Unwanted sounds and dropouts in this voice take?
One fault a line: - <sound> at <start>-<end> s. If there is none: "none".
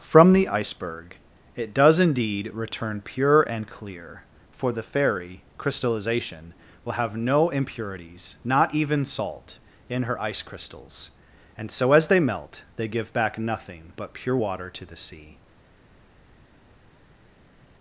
none